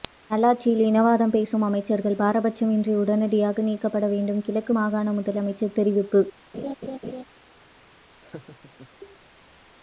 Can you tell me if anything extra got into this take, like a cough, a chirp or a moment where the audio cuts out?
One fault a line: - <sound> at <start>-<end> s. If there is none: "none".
- laugh at 6.5-7.2 s
- laugh at 8.2-8.9 s